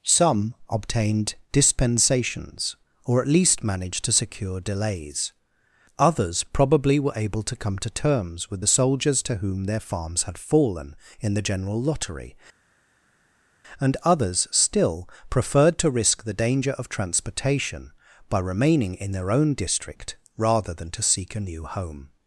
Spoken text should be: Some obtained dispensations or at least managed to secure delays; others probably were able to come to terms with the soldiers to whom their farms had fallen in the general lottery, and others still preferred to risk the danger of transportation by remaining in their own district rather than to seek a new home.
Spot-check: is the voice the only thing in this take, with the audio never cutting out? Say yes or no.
yes